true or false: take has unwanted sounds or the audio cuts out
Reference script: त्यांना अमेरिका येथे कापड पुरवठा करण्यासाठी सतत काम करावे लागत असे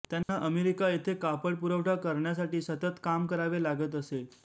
true